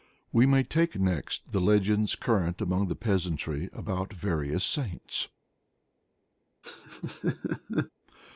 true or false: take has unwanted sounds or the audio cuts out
true